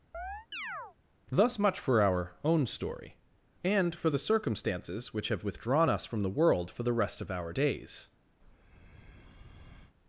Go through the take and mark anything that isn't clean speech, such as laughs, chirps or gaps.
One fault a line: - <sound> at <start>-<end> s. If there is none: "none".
- chirp at 0.1-1.0 s
- breath at 8.4-9.9 s